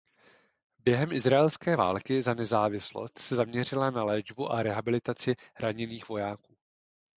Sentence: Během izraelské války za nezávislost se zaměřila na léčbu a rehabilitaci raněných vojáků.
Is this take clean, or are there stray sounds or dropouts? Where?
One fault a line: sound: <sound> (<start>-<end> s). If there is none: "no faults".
no faults